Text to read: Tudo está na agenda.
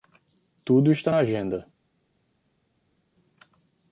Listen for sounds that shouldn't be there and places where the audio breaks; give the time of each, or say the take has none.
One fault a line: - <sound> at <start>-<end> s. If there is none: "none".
none